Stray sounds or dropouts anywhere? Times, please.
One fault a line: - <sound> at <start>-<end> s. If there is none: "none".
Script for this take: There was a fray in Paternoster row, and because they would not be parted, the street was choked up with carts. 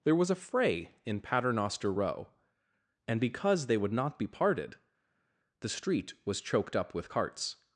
none